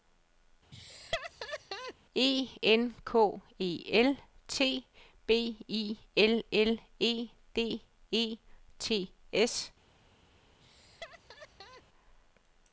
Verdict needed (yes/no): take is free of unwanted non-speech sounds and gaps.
no